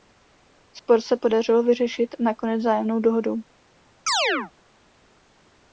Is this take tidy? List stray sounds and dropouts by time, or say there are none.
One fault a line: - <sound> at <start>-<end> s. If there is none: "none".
- chirp at 4.1-4.5 s